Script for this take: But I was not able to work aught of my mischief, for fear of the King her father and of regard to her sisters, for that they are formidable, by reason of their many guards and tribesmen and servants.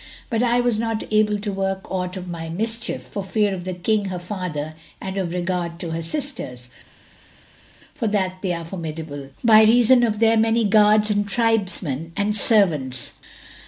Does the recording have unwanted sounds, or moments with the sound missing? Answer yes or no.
no